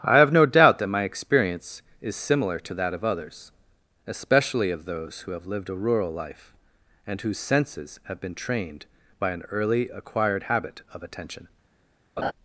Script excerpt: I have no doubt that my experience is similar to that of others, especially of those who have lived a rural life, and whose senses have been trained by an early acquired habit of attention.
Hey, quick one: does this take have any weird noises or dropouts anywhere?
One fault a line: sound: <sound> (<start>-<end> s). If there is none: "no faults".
sound: laugh (12.2-12.3 s)